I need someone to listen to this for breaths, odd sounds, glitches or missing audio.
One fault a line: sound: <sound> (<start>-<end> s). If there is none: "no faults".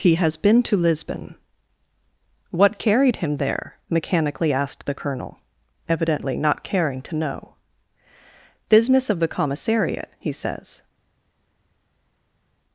no faults